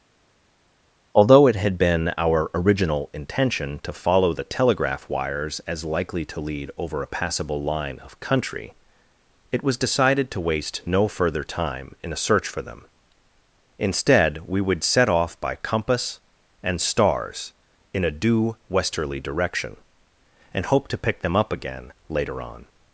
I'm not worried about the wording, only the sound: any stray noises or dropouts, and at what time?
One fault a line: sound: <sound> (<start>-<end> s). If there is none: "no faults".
no faults